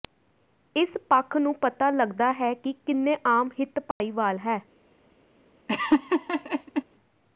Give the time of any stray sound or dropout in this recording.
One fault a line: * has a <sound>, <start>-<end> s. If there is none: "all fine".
* has a dropout, 3.9-4.0 s
* has a laugh, 5.7-6.8 s